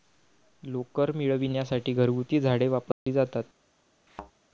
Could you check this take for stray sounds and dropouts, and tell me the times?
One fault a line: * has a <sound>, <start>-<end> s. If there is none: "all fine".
* has a dropout, 2.9-3.1 s
* has a thud, 4.1-4.3 s